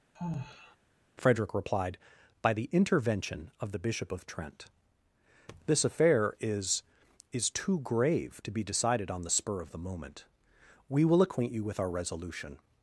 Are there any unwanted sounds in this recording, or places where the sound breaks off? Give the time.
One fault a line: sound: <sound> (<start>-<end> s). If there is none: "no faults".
sound: sigh (0.1-0.8 s)